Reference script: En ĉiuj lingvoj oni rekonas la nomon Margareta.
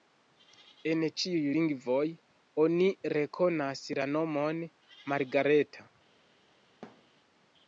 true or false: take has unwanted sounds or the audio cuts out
true